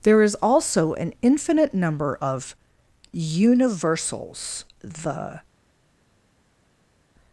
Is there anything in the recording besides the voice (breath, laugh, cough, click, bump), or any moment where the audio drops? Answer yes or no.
no